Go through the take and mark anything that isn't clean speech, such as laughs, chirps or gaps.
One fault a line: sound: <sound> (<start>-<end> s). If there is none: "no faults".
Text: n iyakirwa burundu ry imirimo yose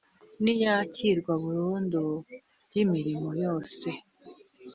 no faults